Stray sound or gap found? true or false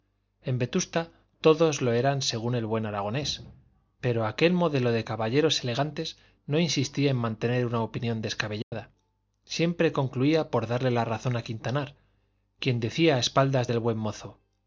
true